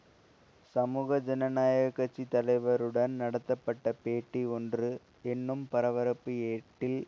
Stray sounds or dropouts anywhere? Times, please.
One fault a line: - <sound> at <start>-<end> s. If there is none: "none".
none